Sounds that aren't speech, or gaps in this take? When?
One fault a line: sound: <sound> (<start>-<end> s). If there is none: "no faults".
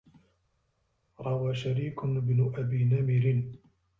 no faults